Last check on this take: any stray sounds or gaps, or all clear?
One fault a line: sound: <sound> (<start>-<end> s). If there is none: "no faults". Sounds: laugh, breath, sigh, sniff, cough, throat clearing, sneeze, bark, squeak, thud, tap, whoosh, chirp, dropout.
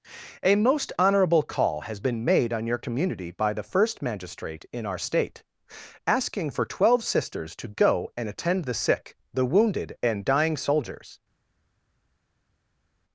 no faults